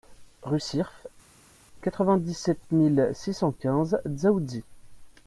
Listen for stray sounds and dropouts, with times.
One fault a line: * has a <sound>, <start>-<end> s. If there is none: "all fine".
all fine